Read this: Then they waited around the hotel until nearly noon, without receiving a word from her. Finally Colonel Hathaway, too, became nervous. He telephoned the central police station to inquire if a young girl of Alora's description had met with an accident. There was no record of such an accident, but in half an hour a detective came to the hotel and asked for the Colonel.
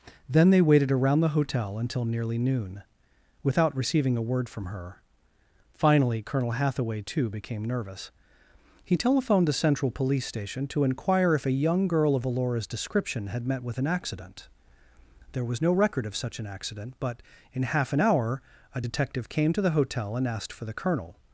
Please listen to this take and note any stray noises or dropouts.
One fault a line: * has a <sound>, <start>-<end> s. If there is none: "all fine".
all fine